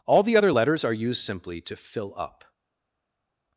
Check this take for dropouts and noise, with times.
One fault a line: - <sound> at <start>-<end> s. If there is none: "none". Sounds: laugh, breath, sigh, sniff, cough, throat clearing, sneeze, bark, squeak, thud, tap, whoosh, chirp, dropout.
none